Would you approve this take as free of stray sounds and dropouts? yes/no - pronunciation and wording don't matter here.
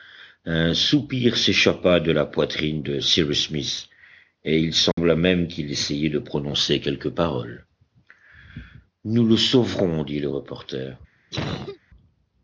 no